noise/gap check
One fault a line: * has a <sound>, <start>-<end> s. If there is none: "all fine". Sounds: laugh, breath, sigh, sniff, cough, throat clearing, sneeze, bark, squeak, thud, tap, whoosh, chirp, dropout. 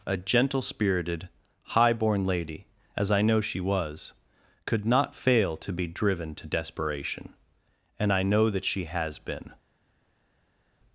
all fine